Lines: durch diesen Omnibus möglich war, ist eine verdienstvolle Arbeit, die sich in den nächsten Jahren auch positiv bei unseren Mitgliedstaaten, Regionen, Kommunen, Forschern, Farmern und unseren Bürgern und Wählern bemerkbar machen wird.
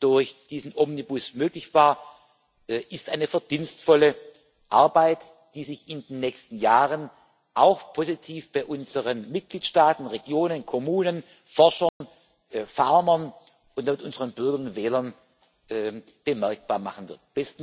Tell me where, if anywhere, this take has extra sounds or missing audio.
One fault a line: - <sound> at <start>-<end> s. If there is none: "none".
- dropout at 11.9-12.0 s